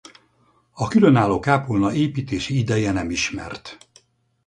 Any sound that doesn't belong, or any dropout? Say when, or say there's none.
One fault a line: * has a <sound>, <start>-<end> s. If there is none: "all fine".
all fine